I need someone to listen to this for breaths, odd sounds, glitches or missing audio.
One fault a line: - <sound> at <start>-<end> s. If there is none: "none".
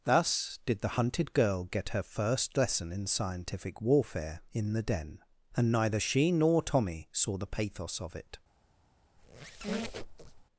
- squeak at 9.2-10.5 s